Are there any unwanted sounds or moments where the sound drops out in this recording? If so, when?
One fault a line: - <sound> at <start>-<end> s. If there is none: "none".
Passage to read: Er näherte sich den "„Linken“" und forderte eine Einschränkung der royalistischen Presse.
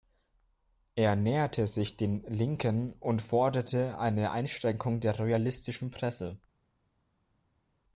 none